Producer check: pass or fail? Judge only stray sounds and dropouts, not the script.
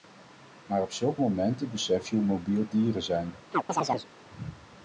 fail